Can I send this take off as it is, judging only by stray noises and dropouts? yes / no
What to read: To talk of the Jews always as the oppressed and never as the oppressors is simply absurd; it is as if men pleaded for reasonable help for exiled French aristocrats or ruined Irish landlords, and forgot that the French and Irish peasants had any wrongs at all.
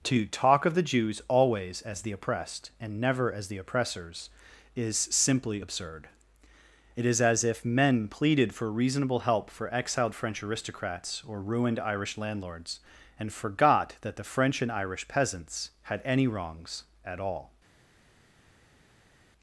yes